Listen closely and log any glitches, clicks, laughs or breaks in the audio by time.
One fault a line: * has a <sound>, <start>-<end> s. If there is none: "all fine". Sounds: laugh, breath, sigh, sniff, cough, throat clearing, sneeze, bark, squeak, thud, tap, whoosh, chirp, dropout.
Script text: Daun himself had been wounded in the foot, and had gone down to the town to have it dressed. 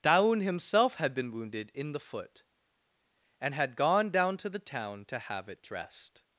all fine